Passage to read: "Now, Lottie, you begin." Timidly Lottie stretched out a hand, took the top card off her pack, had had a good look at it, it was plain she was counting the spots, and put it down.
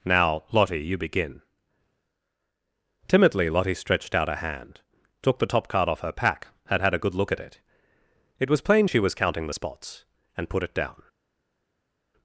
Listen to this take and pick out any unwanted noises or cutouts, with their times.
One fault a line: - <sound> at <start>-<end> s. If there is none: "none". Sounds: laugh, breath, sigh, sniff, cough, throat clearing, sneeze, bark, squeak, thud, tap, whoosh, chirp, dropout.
none